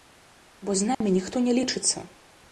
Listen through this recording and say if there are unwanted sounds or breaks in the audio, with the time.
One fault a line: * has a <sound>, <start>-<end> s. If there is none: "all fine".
* has a dropout, 0.9-1.0 s